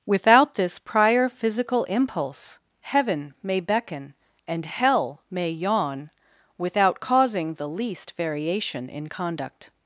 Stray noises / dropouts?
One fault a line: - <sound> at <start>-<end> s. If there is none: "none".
none